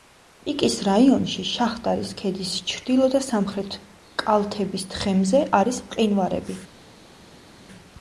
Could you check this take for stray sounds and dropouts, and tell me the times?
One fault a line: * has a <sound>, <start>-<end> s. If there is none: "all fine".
all fine